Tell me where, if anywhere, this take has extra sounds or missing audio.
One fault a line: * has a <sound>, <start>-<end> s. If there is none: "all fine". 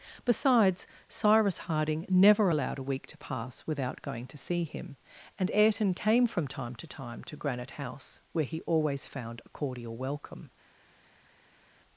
all fine